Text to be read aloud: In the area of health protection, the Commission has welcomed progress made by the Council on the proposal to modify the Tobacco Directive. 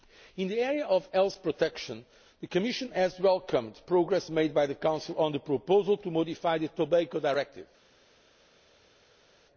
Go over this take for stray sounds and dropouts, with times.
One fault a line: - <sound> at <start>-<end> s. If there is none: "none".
none